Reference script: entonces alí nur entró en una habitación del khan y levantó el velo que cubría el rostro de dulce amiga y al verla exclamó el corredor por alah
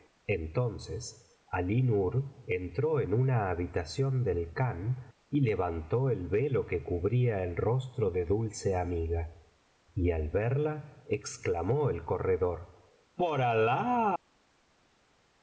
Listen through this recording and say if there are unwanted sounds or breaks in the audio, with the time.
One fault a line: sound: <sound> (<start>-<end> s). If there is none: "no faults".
no faults